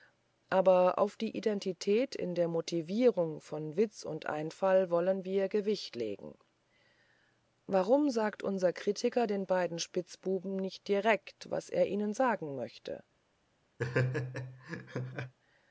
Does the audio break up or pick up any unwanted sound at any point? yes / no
yes